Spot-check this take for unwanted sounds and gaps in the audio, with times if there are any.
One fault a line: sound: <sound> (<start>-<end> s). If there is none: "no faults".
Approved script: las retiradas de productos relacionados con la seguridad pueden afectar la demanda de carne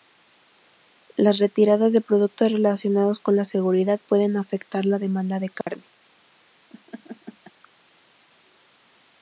sound: dropout (5.6-5.7 s)
sound: laugh (6.7-7.5 s)